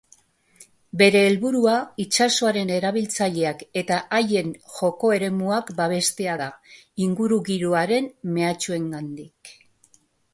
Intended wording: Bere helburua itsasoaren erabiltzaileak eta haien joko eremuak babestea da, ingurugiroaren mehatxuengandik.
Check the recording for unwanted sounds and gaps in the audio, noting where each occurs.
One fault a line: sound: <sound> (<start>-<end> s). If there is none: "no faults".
no faults